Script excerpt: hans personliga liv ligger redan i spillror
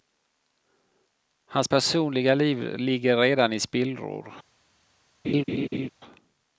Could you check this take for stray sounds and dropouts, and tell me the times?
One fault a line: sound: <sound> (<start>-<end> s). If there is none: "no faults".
sound: laugh (5.2-5.9 s)